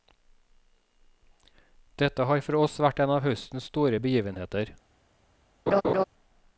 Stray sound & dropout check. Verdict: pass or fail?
fail